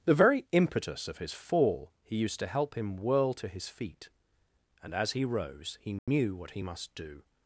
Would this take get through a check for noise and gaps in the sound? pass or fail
fail